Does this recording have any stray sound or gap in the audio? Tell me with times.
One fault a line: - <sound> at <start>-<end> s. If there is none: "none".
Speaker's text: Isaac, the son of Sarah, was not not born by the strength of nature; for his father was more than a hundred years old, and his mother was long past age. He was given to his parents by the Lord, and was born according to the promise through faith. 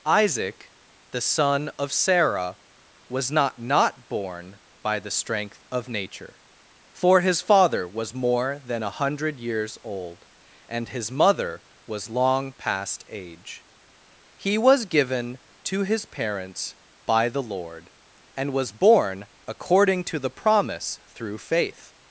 none